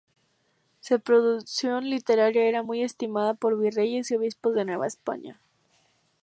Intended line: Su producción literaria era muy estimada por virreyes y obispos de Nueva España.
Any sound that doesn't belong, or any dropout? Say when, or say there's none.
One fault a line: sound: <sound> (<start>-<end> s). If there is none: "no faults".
no faults